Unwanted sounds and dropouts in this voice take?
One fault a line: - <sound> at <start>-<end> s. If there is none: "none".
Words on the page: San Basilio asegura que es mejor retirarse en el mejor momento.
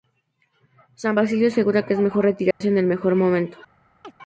- dropout at 2.5-2.6 s
- chirp at 4.0-4.1 s